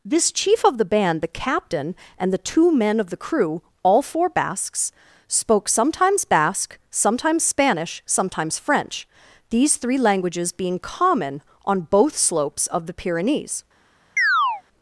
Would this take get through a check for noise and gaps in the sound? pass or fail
fail